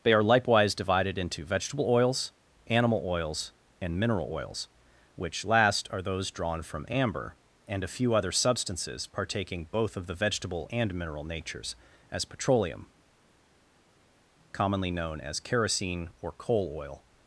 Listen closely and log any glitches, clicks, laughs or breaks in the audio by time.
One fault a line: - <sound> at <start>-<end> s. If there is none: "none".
none